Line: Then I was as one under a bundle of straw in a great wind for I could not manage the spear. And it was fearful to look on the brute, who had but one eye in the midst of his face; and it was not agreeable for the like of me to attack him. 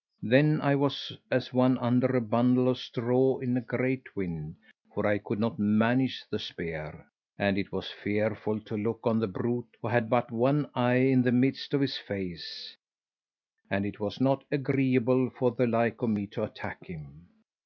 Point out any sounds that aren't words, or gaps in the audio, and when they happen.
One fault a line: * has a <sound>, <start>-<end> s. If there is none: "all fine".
all fine